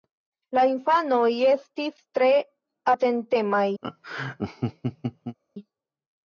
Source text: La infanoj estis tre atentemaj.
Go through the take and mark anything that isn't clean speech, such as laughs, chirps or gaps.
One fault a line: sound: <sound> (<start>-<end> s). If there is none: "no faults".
sound: laugh (3.8-5.4 s)